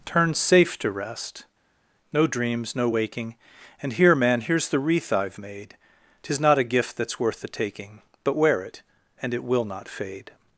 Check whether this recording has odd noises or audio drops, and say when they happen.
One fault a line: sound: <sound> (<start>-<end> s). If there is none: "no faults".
no faults